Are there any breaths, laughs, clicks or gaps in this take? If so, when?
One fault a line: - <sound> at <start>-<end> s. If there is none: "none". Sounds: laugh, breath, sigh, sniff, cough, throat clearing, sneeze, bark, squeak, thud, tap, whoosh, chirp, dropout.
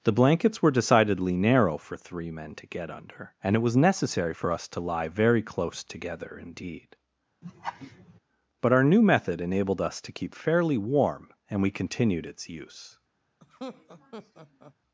- laugh at 7.4-8.2 s
- laugh at 13.4-14.7 s